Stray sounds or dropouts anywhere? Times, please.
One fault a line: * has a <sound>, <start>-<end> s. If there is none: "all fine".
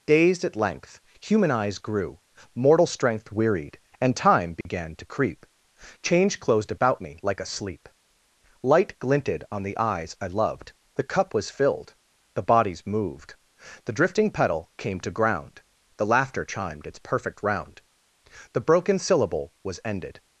* has a dropout, 4.6-4.7 s